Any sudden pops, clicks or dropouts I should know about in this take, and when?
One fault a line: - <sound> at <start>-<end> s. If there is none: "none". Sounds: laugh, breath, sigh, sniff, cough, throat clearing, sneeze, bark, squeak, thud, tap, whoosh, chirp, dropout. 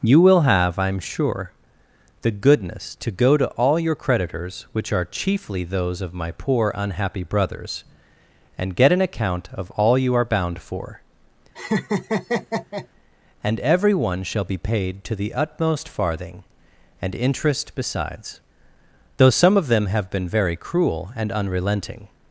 - laugh at 11.5-12.9 s